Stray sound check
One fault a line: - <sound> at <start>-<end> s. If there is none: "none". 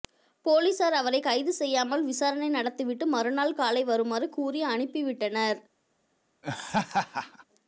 - laugh at 6.4-7.4 s